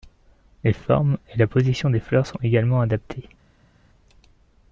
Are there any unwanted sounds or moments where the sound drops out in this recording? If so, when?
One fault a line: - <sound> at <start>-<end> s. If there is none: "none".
none